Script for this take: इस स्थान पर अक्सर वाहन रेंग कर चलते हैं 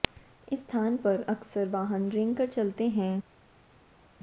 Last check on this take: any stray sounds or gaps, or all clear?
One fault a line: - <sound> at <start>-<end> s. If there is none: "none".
none